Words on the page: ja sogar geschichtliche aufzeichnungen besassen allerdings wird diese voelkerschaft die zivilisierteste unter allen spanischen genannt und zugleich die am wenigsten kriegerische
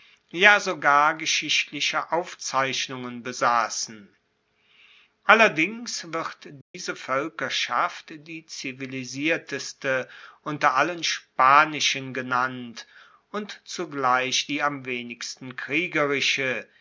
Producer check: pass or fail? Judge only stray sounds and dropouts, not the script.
fail